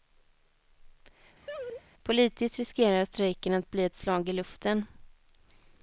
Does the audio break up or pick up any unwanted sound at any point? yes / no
yes